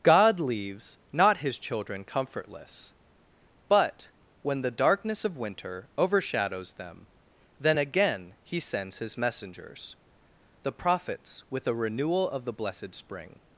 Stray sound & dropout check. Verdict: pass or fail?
pass